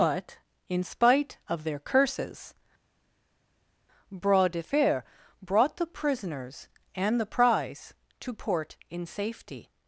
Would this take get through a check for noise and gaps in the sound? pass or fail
pass